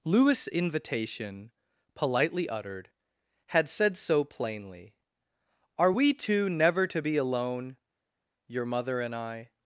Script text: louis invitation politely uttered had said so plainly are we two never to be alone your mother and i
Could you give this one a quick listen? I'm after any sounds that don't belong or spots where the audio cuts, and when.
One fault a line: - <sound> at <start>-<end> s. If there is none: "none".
none